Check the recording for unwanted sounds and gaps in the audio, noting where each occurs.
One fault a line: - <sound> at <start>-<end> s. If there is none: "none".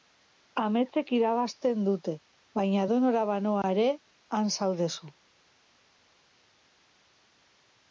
none